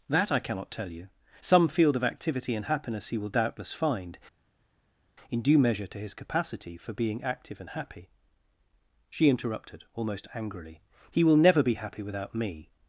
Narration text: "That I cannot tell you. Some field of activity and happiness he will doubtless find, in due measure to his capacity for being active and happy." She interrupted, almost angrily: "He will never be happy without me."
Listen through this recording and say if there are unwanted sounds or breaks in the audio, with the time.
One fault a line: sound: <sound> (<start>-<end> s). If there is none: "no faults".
no faults